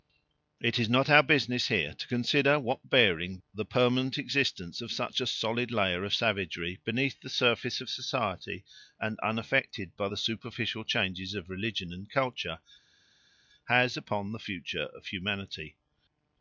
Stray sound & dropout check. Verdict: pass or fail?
pass